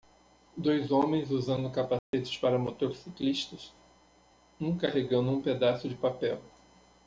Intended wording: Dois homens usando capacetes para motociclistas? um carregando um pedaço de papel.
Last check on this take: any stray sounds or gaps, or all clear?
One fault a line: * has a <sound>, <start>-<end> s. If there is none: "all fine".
* has a dropout, 2.0-2.1 s